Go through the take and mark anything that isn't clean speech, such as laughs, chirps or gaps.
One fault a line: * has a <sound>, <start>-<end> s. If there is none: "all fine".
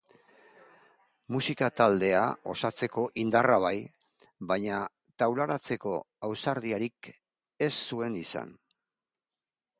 all fine